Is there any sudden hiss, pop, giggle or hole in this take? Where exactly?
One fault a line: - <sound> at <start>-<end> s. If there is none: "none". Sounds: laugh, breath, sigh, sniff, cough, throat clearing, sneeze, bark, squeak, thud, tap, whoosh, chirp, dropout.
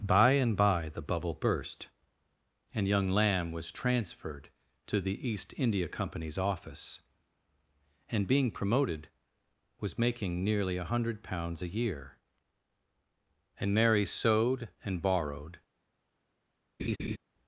- laugh at 16.8-17.2 s